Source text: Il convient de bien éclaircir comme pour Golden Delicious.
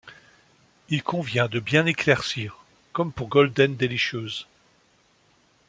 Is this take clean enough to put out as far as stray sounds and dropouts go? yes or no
yes